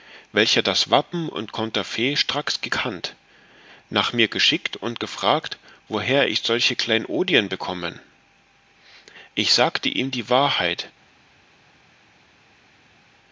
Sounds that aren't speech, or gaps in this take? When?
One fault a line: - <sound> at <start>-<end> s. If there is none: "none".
none